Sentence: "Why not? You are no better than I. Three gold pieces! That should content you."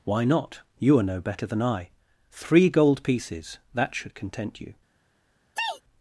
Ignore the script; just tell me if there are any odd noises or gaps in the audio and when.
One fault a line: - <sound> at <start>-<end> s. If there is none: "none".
- sneeze at 5.6-5.8 s